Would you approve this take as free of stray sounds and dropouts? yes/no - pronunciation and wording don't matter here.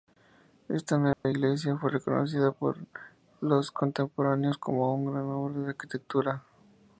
no